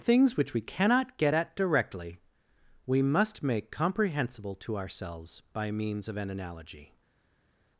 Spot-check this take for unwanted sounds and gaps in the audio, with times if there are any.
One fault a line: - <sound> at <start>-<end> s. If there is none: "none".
none